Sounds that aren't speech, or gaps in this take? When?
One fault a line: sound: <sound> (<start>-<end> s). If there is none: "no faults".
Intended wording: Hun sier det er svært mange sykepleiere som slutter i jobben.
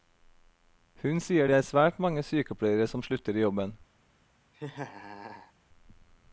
sound: laugh (4.5-5.5 s)